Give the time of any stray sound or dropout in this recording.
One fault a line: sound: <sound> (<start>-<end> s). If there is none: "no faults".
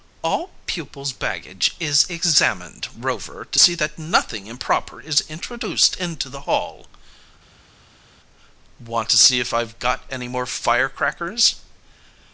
no faults